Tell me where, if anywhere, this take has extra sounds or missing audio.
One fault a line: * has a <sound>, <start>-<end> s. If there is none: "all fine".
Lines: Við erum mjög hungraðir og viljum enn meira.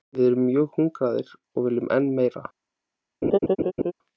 * has a laugh, 3.2-3.9 s